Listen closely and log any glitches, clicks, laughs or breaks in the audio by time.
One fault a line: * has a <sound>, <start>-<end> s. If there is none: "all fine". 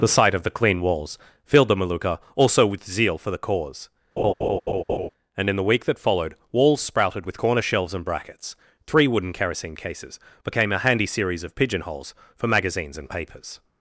* has a laugh, 4.2-5.1 s